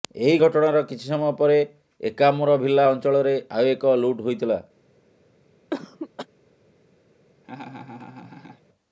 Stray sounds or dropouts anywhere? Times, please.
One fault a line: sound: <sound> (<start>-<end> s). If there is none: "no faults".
sound: cough (5.7-6.3 s)
sound: laugh (7.4-8.6 s)